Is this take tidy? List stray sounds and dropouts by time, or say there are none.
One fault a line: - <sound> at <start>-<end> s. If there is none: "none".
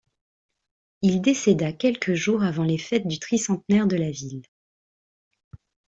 none